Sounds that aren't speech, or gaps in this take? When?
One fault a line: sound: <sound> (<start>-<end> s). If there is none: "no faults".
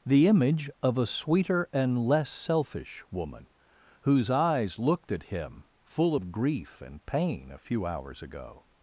no faults